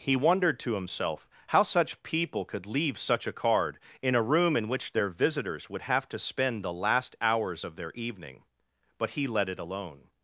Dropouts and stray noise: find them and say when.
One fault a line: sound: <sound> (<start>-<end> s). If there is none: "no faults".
no faults